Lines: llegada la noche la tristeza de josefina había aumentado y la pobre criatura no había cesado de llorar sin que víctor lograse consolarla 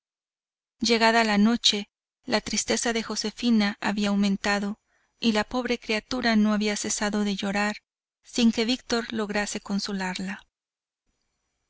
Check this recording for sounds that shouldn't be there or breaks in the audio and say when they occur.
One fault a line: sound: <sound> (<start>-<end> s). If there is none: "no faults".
no faults